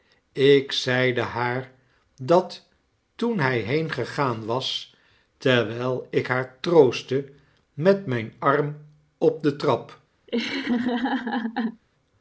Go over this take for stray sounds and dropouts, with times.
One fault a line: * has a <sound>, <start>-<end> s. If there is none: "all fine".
* has a laugh, 10.3-11.8 s